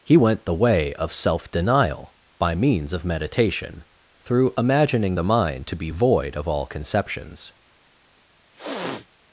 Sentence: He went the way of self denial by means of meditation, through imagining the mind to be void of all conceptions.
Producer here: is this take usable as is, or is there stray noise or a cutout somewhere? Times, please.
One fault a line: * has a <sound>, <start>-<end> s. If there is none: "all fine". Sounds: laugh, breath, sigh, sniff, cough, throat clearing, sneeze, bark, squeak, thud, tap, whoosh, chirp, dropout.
* has a sniff, 8.5-9.1 s